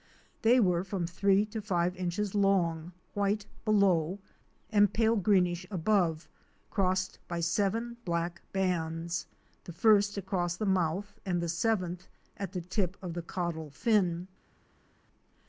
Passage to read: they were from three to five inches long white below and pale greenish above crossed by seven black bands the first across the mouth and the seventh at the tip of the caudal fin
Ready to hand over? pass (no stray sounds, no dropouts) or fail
pass